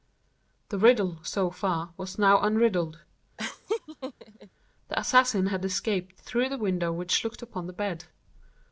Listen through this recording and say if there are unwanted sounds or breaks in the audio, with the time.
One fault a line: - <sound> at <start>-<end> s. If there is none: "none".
- laugh at 3.4-4.5 s